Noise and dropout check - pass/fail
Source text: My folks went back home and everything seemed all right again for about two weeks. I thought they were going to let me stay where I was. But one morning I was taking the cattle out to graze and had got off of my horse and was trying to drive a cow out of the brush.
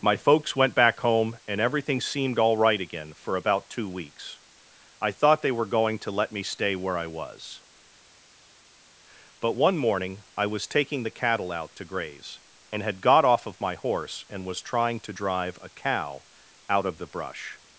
pass